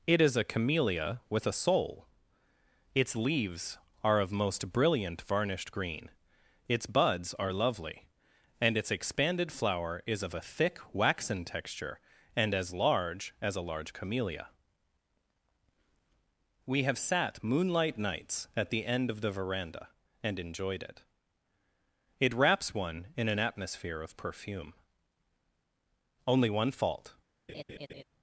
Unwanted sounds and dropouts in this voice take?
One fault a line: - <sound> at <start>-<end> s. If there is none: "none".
- laugh at 27.5-28.0 s